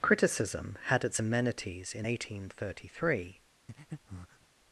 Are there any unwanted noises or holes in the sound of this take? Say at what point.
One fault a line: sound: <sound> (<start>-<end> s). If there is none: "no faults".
sound: breath (3.7-4.5 s)